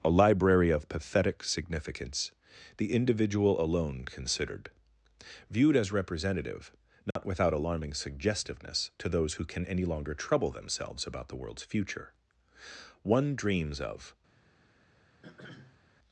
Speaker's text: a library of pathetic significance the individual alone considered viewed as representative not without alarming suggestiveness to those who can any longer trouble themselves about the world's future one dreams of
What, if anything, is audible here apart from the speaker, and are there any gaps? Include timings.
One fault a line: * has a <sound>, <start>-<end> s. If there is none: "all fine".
* has a dropout, 7.1-7.2 s
* has a throat clearing, 15.2-15.8 s